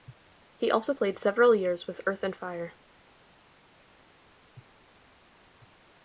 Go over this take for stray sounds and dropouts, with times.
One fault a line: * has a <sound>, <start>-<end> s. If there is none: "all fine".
all fine